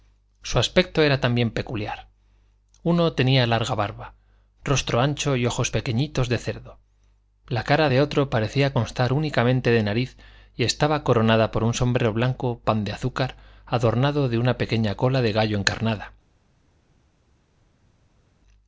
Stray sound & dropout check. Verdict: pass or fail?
pass